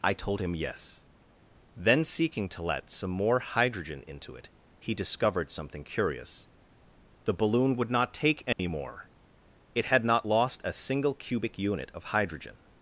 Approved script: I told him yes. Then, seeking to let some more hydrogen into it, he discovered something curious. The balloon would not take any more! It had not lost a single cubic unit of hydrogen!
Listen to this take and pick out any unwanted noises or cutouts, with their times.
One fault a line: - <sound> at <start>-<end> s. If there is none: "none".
- dropout at 8.5-8.6 s